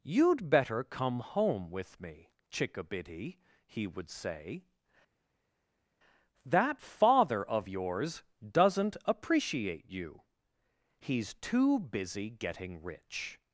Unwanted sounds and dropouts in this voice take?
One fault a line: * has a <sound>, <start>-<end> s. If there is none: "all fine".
all fine